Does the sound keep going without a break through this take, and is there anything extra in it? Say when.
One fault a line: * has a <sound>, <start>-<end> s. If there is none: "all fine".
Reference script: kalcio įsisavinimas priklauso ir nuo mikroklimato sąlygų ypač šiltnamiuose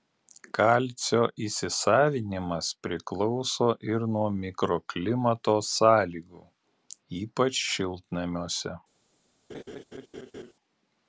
* has a laugh, 9.5-10.5 s